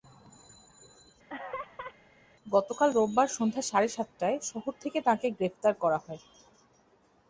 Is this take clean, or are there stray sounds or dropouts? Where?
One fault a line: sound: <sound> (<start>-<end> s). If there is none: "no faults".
sound: laugh (1.3-2.0 s)